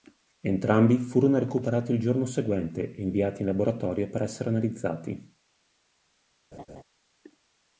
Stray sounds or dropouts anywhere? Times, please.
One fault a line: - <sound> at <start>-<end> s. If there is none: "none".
- laugh at 6.5-6.8 s